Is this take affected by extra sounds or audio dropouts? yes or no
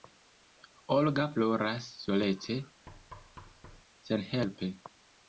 yes